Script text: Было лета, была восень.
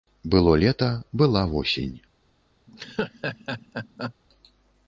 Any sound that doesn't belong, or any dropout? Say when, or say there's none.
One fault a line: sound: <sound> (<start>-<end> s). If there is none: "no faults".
sound: laugh (2.7-4.1 s)